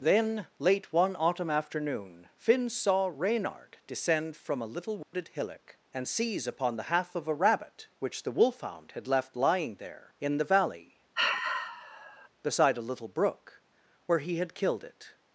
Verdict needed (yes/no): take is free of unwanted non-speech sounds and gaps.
no